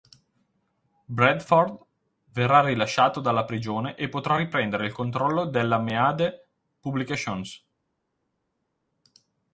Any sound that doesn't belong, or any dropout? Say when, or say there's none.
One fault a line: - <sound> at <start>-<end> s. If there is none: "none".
none